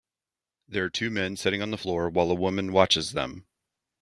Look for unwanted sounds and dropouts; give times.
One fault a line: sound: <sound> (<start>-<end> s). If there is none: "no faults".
no faults